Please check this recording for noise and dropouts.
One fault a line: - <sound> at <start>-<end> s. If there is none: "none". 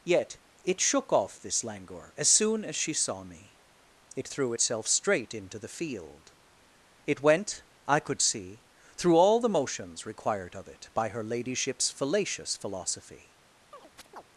- chirp at 13.7-14.2 s